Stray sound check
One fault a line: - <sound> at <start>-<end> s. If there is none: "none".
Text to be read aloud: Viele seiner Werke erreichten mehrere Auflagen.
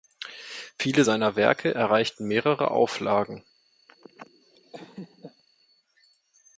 - laugh at 3.9-5.4 s